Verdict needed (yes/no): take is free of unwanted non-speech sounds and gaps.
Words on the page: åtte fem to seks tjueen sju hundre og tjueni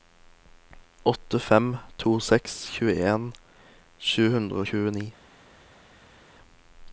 yes